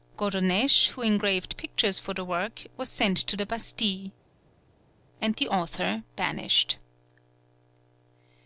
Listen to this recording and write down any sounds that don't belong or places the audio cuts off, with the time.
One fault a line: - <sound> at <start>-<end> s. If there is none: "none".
none